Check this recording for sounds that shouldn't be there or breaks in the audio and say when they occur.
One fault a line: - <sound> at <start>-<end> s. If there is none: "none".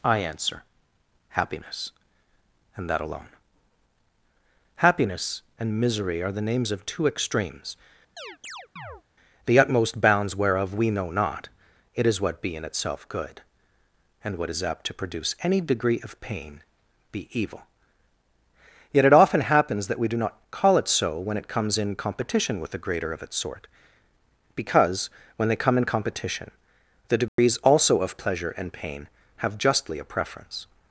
- chirp at 8.2-9.0 s
- dropout at 27.3-27.4 s